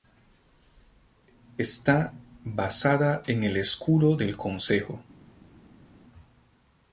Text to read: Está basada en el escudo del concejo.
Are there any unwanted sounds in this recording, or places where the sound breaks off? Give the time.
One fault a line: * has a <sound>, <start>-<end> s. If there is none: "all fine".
all fine